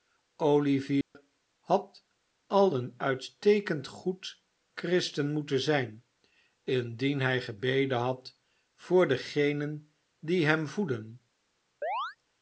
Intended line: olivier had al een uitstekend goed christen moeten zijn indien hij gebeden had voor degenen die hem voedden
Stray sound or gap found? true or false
true